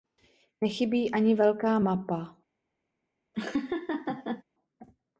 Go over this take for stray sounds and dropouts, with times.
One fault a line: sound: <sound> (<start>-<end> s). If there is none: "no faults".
sound: laugh (3.3-4.4 s)